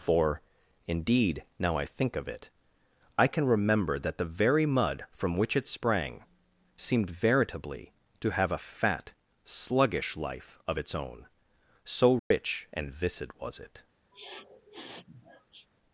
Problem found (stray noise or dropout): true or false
true